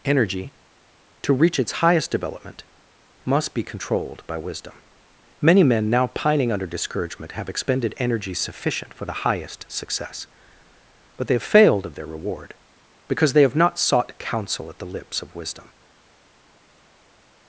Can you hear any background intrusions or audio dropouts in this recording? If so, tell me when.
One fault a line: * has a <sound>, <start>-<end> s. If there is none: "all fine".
all fine